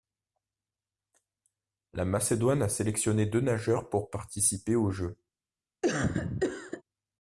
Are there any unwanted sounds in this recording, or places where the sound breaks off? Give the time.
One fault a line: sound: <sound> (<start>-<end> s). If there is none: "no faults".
sound: cough (5.8-6.8 s)